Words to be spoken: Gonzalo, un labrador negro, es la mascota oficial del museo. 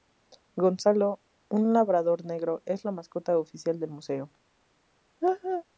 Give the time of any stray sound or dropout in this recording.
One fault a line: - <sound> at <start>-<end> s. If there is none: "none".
- laugh at 5.2-5.6 s